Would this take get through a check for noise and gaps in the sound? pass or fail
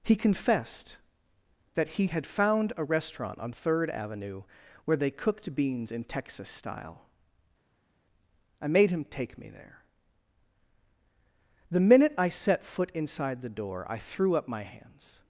pass